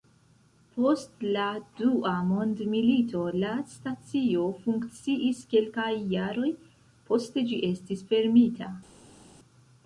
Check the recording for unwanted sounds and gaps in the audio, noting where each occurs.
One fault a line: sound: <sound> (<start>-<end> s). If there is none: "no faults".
no faults